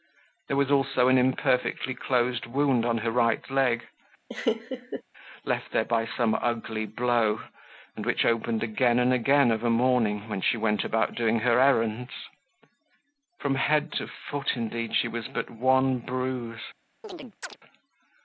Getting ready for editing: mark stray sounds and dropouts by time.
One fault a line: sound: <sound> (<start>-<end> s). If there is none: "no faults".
sound: laugh (4.3-5.0 s)
sound: chirp (17.0-17.6 s)